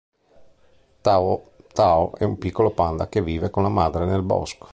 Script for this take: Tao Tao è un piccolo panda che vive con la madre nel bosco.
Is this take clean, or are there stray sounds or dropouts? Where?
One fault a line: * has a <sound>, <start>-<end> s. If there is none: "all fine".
all fine